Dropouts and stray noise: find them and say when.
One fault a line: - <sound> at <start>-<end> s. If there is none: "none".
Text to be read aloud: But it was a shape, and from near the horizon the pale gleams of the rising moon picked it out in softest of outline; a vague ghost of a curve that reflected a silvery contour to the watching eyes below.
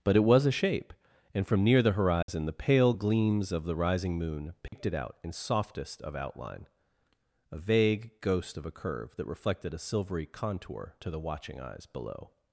- dropout at 2.2-2.3 s
- dropout at 4.7-4.7 s